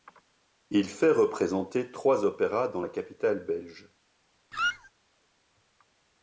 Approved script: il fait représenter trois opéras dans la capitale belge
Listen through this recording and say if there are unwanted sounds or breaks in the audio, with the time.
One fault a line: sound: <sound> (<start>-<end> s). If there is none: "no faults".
sound: squeak (4.5-4.9 s)